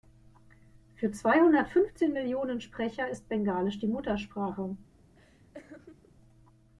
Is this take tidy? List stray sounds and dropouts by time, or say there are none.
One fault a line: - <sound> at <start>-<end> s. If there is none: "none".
- laugh at 5.1-6.2 s